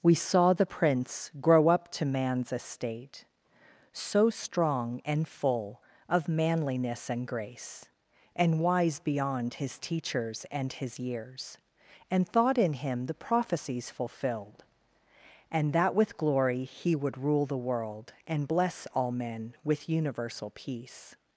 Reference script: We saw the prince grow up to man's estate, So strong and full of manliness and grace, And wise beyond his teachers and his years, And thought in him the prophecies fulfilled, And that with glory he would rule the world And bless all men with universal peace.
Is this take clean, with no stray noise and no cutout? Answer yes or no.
yes